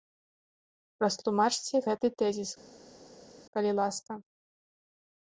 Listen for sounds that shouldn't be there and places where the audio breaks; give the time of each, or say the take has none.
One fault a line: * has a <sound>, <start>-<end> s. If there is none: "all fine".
all fine